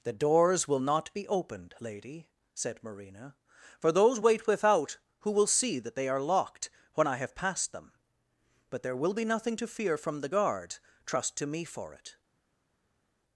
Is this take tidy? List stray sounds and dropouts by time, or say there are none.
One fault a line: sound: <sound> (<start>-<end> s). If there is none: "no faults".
no faults